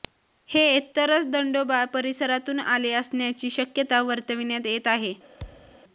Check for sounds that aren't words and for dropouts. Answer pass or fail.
fail